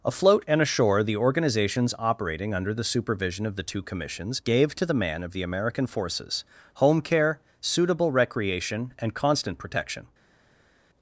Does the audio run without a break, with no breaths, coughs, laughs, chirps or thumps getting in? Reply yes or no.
yes